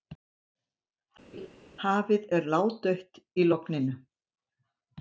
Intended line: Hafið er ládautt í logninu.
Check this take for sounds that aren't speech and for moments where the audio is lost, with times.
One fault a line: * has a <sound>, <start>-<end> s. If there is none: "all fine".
* has a laugh, 1.3-1.5 s